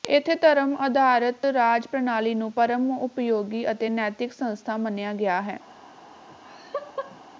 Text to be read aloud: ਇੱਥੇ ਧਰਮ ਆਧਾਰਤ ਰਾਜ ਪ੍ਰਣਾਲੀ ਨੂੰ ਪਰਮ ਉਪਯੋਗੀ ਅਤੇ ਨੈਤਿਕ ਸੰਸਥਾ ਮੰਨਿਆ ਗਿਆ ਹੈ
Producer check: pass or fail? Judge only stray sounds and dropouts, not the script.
fail